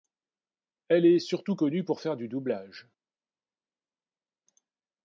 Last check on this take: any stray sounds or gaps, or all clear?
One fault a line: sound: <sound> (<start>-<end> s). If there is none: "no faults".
no faults